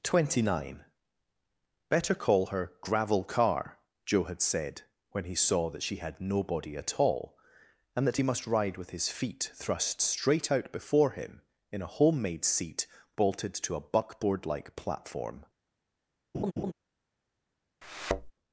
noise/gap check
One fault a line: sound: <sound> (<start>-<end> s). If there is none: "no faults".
sound: laugh (16.3-16.7 s)
sound: thud (17.8-18.3 s)